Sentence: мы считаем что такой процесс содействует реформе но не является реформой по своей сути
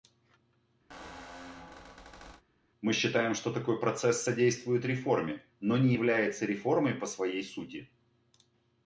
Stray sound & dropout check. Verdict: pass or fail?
fail